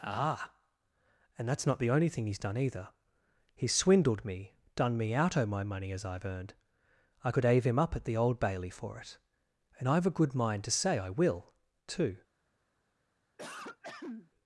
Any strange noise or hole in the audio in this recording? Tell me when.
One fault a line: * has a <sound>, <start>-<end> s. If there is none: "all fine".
* has a throat clearing, 13.4-14.3 s